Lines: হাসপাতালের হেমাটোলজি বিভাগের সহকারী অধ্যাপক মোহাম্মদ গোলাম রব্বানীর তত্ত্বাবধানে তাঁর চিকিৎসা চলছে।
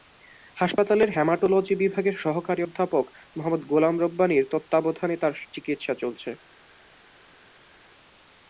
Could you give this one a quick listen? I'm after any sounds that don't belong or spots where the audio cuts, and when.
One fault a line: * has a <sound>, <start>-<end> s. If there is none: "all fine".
all fine